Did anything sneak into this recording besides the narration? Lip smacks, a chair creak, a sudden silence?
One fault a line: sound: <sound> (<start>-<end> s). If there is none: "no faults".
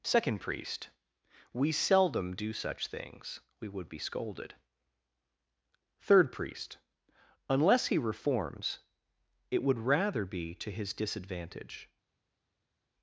no faults